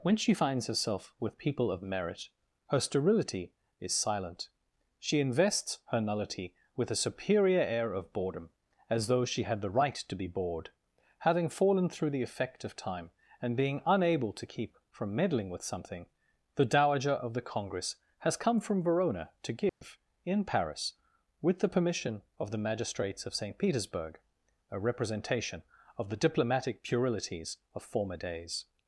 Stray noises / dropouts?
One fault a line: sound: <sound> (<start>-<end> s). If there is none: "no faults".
sound: dropout (19.7-19.8 s)